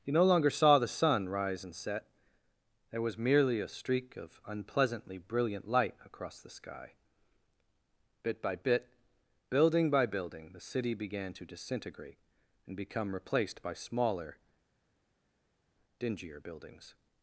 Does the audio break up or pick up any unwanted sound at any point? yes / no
no